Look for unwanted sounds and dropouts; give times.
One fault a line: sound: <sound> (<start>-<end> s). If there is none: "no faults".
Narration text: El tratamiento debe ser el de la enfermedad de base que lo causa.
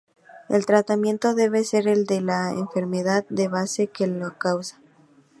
no faults